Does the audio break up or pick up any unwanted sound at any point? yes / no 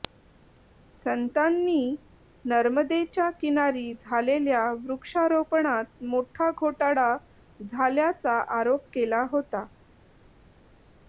no